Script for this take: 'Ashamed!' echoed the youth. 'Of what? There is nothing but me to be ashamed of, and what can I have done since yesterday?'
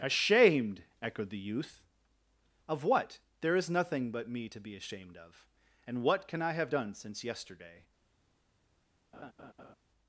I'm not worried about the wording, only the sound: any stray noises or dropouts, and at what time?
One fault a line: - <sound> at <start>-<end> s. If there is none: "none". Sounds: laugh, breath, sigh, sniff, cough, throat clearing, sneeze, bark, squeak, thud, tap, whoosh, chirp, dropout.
- laugh at 9.1-9.8 s